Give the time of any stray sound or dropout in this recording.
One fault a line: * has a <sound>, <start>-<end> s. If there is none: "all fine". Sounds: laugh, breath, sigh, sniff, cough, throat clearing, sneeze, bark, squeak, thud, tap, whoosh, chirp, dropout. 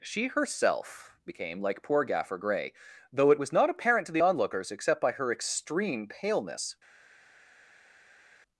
all fine